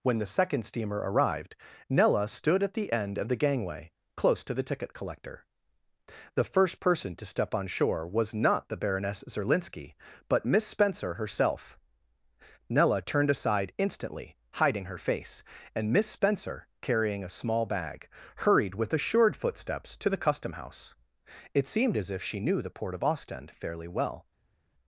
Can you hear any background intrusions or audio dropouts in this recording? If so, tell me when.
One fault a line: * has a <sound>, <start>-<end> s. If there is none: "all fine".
all fine